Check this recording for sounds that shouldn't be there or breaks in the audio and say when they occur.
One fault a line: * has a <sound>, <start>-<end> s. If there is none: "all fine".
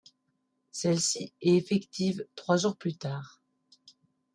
all fine